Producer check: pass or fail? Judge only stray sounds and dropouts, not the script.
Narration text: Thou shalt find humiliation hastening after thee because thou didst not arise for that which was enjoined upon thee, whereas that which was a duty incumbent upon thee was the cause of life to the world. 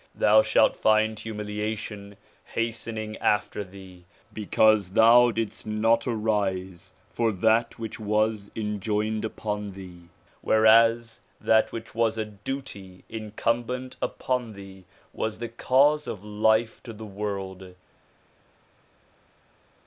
pass